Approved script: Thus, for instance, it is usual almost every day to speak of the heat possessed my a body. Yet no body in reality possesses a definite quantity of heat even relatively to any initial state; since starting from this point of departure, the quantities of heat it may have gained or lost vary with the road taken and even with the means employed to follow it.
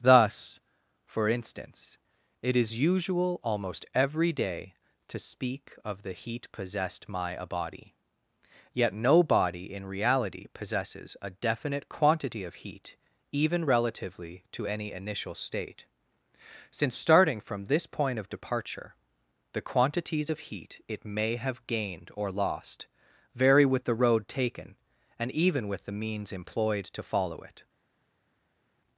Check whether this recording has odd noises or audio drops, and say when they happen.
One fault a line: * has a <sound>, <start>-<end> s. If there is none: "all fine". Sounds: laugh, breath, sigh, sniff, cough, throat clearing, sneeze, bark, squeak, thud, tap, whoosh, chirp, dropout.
all fine